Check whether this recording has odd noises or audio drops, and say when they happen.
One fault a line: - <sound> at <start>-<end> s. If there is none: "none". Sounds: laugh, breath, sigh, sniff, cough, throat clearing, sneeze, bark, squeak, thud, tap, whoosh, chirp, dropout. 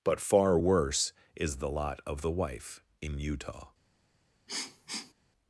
- sniff at 4.5-5.1 s